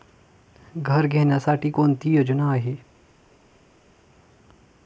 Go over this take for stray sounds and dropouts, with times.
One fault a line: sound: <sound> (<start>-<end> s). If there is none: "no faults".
no faults